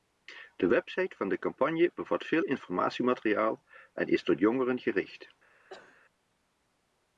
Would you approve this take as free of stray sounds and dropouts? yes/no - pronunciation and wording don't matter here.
no